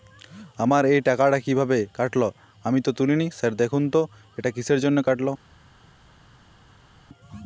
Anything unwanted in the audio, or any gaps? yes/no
no